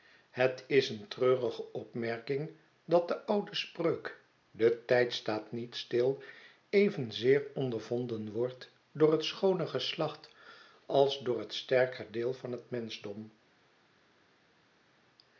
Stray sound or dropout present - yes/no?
no